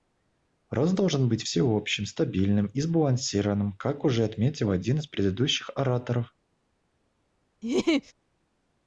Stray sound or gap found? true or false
true